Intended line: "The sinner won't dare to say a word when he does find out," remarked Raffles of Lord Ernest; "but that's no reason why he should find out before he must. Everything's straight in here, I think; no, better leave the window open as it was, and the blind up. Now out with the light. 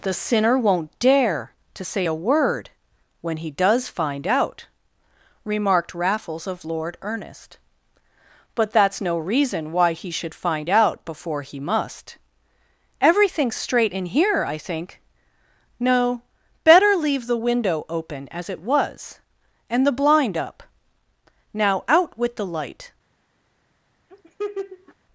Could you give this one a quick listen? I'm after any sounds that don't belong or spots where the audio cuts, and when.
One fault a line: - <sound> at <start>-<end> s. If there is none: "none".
- laugh at 24.1-24.9 s